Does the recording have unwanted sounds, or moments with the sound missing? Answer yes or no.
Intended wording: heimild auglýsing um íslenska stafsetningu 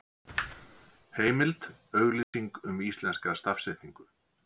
yes